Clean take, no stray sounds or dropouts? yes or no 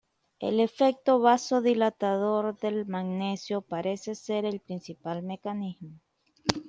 yes